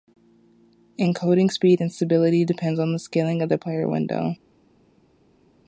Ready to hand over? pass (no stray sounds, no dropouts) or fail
pass